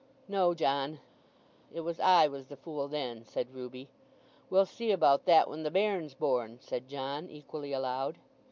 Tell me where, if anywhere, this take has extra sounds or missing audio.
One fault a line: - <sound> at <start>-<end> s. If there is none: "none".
none